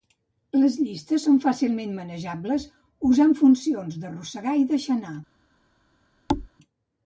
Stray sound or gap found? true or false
true